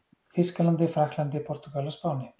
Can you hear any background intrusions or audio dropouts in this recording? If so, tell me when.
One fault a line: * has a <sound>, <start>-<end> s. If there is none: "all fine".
all fine